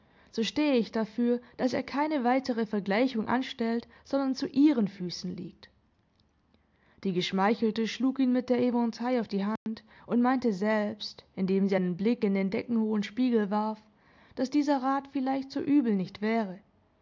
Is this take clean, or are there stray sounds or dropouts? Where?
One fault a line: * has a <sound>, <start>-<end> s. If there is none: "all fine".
* has a dropout, 9.6-9.7 s